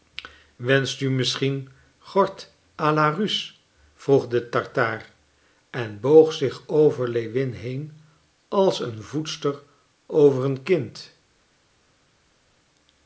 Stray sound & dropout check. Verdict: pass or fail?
pass